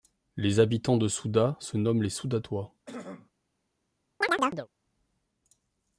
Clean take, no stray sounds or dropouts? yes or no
no